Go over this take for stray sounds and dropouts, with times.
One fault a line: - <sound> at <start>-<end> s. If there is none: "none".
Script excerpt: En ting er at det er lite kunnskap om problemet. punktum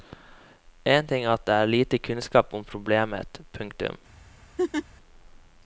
- laugh at 4.6-4.9 s